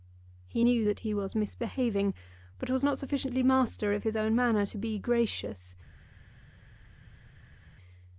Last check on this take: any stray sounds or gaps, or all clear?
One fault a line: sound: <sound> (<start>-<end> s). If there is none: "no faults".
no faults